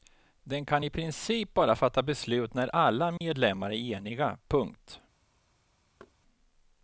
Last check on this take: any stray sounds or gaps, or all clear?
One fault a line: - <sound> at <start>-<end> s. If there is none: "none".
- dropout at 3.2-3.2 s
- thud at 6.0-6.2 s